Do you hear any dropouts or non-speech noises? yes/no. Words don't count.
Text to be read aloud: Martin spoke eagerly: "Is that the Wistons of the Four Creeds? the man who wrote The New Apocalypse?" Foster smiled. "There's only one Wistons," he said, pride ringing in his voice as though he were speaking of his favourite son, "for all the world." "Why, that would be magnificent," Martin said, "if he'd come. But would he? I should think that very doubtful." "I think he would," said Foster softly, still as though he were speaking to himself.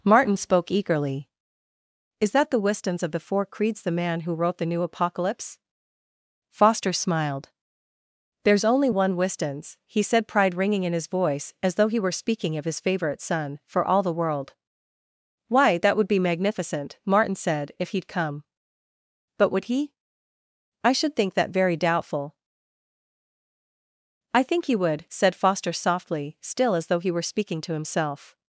no